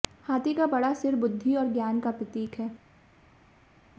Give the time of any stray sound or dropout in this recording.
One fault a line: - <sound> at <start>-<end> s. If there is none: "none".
none